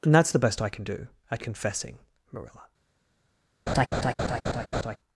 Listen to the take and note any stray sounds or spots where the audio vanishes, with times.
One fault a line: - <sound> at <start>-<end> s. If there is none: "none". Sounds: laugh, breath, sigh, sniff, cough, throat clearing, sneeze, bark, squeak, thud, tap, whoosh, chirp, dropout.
- laugh at 3.7-5.0 s